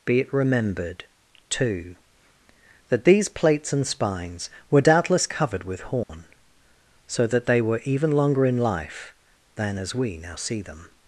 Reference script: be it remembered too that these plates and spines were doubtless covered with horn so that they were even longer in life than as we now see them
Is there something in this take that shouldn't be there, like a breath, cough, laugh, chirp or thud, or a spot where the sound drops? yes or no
yes